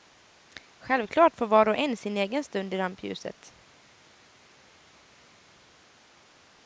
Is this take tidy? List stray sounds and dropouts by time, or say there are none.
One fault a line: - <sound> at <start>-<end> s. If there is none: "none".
none